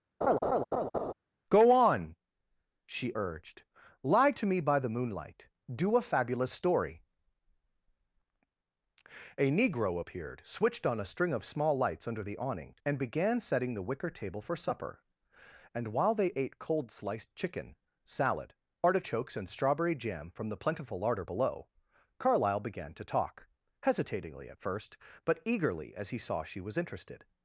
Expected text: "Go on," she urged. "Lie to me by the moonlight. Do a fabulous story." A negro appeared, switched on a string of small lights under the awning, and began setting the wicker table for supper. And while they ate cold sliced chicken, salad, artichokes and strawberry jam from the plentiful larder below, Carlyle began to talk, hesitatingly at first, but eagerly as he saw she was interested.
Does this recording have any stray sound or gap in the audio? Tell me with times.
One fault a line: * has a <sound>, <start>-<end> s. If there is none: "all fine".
* has a laugh, 0.2-1.1 s